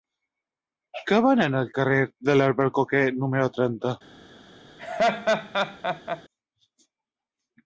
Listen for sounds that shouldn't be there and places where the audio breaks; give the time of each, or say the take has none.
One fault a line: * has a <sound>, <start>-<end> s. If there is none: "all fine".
* has a laugh, 4.8-6.2 s